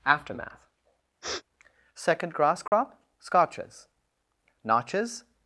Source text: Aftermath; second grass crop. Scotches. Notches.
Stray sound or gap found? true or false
true